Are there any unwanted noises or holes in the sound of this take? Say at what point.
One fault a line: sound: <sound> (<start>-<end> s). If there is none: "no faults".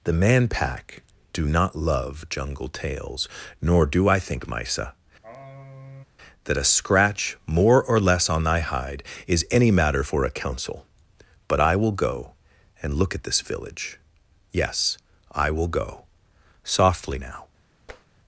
sound: sigh (5.2-6.0 s)
sound: tap (17.9-18.1 s)